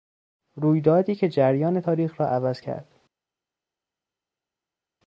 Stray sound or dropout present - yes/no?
no